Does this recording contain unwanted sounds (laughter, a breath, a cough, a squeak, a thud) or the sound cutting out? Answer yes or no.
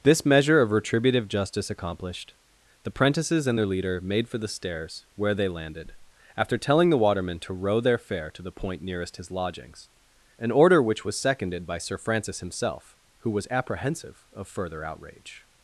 no